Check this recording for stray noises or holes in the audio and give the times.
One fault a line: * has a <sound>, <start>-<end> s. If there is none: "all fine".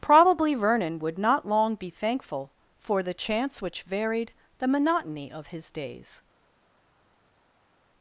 all fine